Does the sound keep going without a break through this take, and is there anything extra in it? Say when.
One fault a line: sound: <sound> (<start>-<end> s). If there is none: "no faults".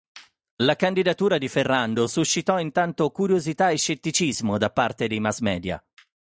no faults